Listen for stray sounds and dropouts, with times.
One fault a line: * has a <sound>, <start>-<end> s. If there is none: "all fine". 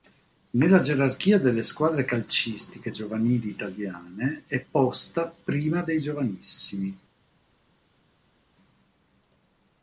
all fine